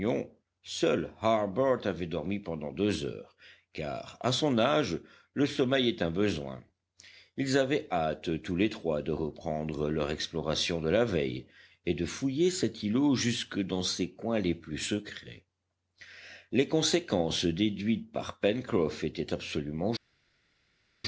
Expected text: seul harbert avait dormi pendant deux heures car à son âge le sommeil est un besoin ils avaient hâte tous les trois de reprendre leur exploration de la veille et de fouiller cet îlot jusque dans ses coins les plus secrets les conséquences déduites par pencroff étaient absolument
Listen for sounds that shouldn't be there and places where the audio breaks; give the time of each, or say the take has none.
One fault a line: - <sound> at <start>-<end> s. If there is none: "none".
none